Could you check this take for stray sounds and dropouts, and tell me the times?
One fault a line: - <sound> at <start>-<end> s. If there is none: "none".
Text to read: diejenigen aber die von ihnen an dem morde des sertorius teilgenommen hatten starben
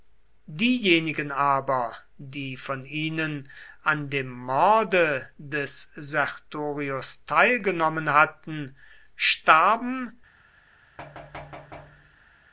- thud at 11.0-12.4 s